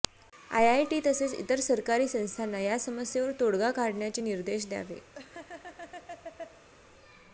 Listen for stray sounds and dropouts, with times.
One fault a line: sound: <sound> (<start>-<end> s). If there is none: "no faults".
sound: laugh (5.1-6.7 s)